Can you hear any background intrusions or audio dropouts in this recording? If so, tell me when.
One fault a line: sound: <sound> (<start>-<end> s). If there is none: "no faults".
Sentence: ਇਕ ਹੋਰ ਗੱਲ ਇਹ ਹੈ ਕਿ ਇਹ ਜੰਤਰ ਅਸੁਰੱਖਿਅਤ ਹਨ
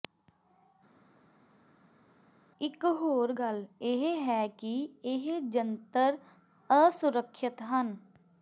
no faults